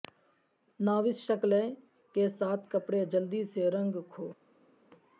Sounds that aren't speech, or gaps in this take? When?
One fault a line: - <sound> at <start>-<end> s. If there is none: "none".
none